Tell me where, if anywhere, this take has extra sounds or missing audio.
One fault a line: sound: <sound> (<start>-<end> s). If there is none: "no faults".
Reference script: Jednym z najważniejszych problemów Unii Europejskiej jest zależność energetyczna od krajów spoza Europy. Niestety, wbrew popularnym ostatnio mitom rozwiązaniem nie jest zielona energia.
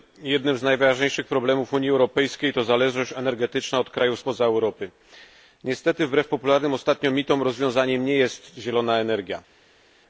no faults